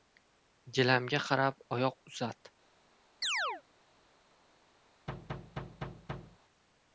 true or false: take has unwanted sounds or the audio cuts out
true